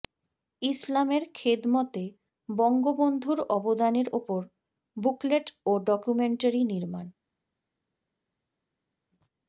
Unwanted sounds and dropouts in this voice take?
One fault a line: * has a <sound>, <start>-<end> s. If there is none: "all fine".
all fine